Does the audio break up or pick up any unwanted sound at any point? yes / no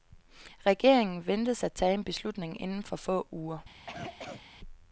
yes